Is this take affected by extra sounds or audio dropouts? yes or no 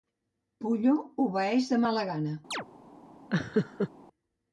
yes